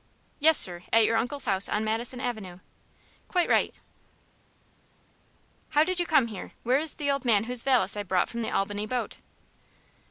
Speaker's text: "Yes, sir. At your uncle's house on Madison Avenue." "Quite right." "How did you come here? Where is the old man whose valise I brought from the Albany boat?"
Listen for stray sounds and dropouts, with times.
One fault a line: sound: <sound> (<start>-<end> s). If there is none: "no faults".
no faults